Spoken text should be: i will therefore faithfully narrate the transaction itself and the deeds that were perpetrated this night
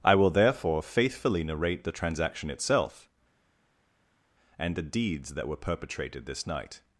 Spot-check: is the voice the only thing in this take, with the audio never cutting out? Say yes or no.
yes